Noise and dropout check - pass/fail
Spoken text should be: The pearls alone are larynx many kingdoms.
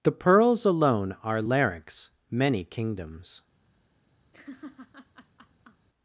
fail